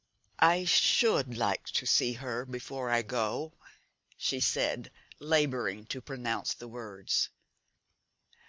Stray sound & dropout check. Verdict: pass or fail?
pass